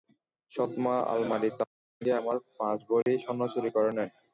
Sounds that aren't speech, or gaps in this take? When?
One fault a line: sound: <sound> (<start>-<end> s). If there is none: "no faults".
sound: dropout (3.0-3.1 s)